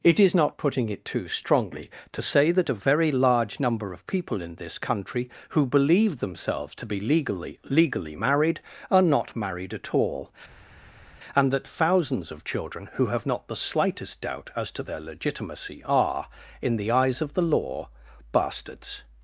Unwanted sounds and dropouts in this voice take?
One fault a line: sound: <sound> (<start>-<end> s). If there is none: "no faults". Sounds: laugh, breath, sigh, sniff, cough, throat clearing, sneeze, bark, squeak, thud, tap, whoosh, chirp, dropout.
no faults